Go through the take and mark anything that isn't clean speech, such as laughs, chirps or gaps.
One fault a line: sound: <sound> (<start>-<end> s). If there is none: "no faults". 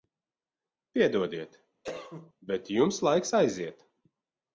sound: cough (1.8-2.3 s)